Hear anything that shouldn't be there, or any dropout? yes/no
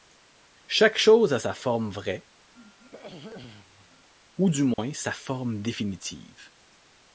yes